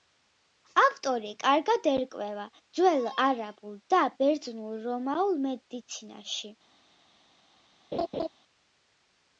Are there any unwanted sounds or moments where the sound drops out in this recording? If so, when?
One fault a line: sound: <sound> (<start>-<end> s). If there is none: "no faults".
sound: laugh (7.9-8.3 s)